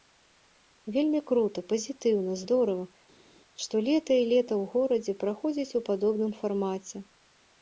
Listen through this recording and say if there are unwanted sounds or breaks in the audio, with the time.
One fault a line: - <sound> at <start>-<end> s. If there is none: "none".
none